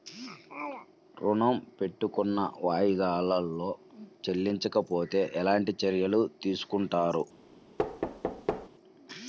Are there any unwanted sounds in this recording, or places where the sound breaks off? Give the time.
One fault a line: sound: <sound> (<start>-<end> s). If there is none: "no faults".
sound: thud (7.8-8.7 s)